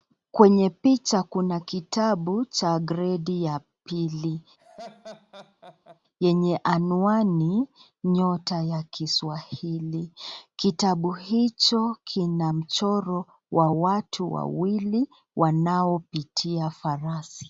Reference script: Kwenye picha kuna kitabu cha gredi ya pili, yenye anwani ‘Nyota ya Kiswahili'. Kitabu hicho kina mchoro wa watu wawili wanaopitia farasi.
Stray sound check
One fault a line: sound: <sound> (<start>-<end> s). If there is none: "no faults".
sound: laugh (4.6-6.0 s)